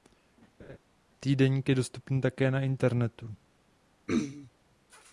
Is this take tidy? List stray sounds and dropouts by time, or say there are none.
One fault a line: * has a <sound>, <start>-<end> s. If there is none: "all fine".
* has a laugh, 0.6-0.8 s
* has a throat clearing, 4.1-4.5 s